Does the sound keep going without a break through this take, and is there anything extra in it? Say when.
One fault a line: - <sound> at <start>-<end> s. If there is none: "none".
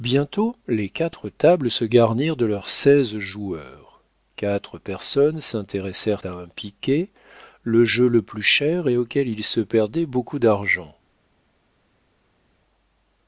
none